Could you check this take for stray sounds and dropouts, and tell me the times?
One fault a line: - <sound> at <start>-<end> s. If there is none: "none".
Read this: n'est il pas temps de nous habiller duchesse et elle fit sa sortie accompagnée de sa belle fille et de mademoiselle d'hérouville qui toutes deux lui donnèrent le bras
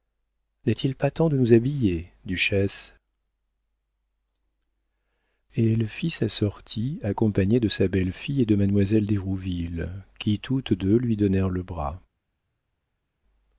none